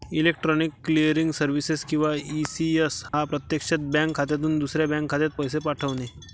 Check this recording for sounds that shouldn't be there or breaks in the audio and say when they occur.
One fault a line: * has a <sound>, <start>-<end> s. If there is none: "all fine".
* has a dropout, 3.1-3.1 s